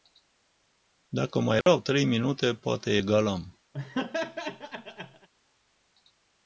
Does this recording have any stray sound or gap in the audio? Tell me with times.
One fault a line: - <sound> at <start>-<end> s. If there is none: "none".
- dropout at 1.6-1.7 s
- laugh at 3.7-5.3 s